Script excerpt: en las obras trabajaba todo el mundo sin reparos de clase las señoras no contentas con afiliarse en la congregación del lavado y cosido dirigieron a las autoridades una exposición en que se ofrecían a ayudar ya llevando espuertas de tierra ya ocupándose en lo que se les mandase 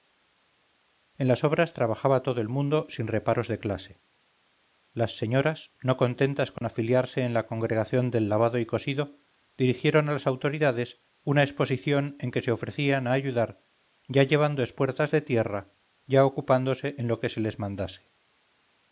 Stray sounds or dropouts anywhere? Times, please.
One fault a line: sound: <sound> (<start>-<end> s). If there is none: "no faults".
sound: dropout (6.6-6.6 s)